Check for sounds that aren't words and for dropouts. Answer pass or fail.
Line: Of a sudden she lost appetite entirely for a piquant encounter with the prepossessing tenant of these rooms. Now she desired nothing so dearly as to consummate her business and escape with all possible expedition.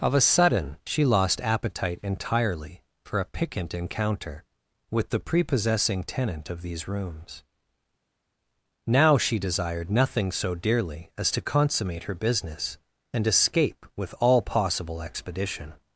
pass